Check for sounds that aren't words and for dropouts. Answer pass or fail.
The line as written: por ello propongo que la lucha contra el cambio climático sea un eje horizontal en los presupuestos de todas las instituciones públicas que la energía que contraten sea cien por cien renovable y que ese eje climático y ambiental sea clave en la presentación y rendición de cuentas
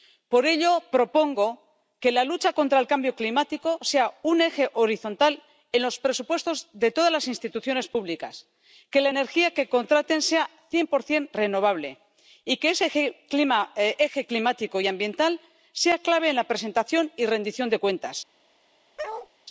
fail